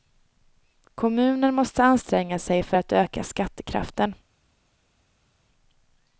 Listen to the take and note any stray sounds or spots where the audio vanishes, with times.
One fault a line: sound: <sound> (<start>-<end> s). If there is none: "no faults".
no faults